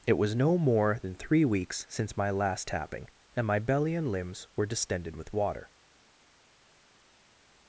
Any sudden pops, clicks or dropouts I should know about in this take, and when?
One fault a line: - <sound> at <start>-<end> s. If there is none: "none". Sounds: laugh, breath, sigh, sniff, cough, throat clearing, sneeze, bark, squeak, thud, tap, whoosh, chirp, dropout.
none